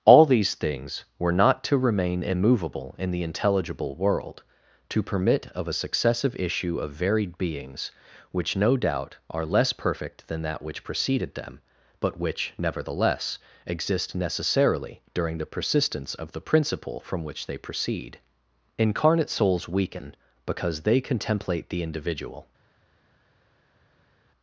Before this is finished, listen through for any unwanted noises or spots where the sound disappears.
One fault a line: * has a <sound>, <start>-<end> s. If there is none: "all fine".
all fine